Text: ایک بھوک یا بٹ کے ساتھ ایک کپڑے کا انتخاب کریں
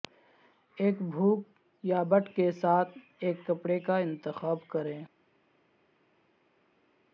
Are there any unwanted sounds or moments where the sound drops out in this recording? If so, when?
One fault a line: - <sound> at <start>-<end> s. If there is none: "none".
none